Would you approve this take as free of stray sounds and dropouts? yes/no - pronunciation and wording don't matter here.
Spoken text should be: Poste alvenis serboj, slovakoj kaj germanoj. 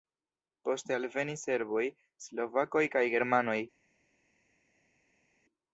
yes